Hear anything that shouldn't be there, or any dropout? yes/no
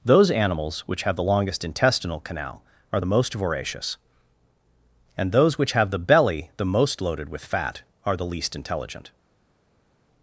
no